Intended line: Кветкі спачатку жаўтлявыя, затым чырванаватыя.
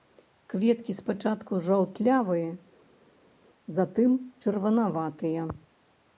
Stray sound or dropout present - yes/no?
no